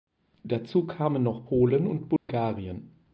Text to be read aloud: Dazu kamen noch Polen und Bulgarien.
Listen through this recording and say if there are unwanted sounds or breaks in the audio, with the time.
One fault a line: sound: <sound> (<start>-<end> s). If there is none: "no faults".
sound: dropout (2.2-2.3 s)